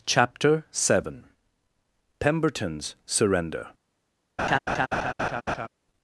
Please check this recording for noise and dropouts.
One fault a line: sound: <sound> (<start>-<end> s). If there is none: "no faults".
sound: laugh (4.4-5.7 s)